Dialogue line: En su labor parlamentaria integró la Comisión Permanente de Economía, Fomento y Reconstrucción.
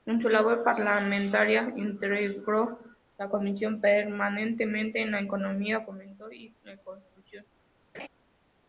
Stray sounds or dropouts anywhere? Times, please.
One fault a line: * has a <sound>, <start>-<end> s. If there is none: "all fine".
* has a laugh, 7.9-8.1 s